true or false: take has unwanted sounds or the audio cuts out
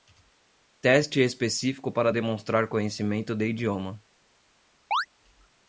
true